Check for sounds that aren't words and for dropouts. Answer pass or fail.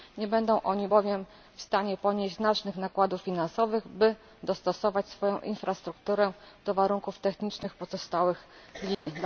fail